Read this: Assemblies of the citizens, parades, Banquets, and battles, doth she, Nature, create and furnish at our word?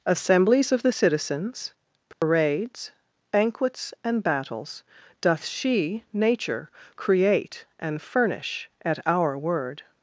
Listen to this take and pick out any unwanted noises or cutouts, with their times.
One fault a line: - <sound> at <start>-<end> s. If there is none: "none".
- dropout at 2.1-2.2 s